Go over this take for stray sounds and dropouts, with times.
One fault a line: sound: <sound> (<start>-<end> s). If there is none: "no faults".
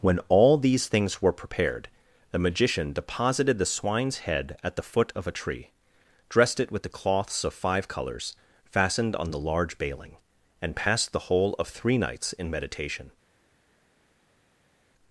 no faults